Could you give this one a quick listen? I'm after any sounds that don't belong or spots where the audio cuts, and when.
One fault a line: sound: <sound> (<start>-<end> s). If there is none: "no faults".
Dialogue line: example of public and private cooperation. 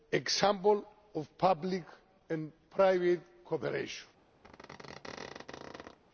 sound: squeak (4.4-6.0 s)